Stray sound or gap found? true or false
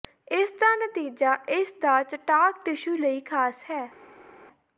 false